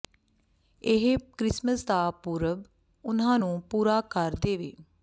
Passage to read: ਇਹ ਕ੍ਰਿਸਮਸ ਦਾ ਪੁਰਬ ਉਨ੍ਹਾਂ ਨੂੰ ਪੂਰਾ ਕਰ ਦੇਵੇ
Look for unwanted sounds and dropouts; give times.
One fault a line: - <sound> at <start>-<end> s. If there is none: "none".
none